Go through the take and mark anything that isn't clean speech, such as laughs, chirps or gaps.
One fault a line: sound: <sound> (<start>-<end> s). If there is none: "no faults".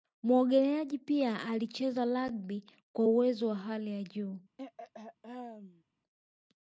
sound: throat clearing (4.6-5.8 s)